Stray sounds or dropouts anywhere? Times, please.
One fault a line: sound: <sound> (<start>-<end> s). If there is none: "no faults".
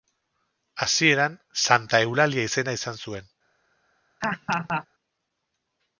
sound: laugh (4.2-4.9 s)